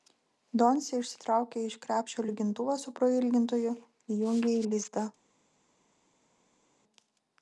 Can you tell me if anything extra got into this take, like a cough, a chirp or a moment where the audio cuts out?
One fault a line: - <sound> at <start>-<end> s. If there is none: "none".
none